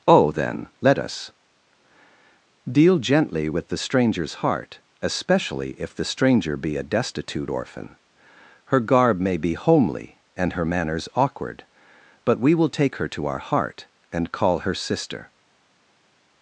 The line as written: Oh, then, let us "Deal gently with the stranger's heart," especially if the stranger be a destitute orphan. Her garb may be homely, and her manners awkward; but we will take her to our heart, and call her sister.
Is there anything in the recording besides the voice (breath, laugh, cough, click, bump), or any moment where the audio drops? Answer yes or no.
no